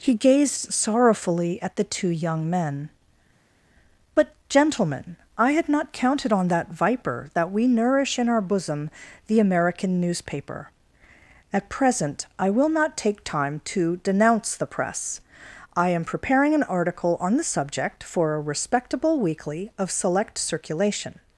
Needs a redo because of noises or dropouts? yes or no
no